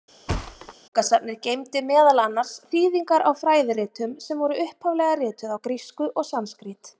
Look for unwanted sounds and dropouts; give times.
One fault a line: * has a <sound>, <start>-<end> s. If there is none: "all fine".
* has a thud, 0.3-0.7 s